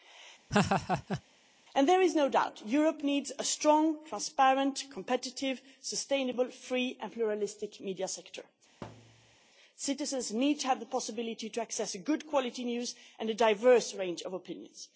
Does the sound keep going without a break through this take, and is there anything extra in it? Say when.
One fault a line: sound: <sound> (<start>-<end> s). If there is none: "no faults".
sound: laugh (0.5-1.2 s)
sound: thud (8.8-9.4 s)